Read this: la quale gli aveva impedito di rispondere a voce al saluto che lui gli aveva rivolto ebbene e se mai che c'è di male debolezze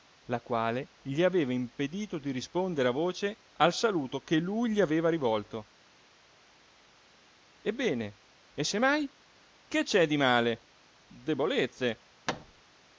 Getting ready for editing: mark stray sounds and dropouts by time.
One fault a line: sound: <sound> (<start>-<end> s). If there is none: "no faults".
sound: thud (12.3-12.6 s)